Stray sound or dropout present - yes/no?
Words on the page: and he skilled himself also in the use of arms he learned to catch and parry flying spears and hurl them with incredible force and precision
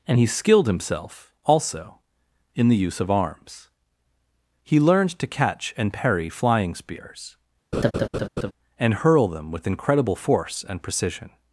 yes